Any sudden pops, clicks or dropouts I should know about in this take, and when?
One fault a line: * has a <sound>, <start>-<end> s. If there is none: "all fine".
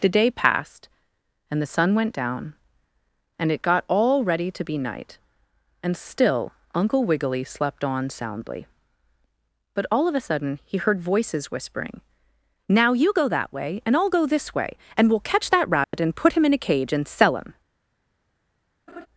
* has a dropout, 15.8-15.9 s
* has a laugh, 18.9-19.1 s